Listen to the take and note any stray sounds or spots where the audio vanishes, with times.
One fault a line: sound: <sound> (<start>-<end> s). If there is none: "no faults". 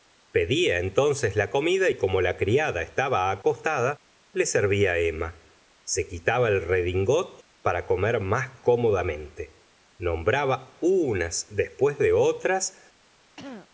sound: throat clearing (13.4-13.7 s)